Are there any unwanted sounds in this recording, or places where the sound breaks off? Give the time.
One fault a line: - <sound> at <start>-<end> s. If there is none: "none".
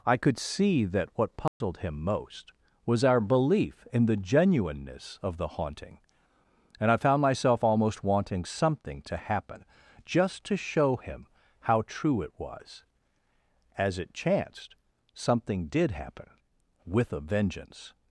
- dropout at 1.5-1.6 s